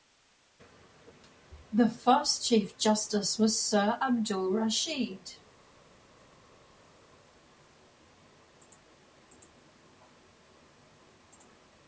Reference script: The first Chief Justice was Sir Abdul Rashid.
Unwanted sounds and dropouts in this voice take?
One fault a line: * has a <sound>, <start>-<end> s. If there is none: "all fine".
all fine